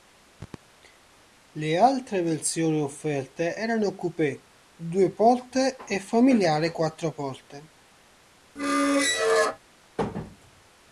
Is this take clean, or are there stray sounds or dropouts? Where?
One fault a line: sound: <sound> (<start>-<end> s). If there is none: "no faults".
sound: squeak (8.6-9.6 s)